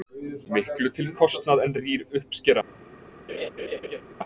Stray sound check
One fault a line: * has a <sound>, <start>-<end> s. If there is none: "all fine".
* has a laugh, 3.3-4.0 s